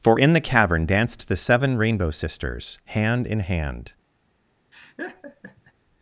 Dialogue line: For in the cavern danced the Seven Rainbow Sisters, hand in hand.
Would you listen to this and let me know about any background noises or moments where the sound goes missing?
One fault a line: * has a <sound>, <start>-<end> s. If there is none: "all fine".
* has a laugh, 4.7-5.7 s